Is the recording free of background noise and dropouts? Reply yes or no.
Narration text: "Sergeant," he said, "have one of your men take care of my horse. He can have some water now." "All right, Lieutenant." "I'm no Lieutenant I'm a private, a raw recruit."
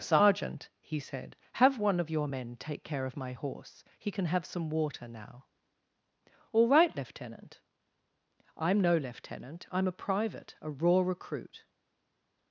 yes